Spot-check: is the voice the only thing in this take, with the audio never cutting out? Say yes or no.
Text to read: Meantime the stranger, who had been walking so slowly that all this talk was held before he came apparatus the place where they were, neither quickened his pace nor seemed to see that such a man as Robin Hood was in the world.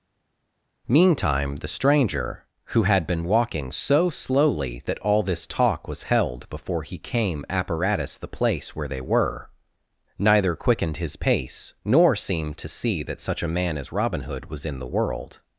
yes